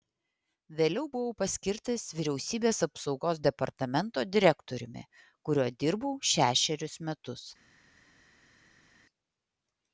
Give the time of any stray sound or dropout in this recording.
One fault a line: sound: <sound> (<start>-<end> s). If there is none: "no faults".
no faults